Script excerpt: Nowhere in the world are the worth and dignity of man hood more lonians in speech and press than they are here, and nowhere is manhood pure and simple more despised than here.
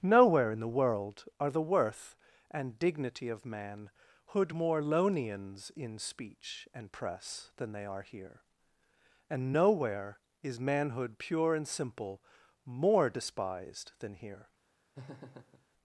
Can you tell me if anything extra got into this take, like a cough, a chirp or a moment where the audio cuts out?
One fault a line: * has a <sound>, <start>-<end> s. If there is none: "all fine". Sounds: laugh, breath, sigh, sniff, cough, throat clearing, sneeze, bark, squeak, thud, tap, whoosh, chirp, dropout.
* has a laugh, 14.9-15.7 s